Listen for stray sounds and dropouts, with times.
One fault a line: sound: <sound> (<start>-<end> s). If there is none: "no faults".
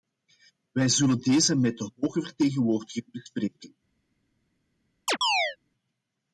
sound: chirp (5.1-5.6 s)